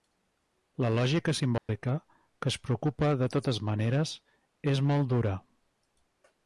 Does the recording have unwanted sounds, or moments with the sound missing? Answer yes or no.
yes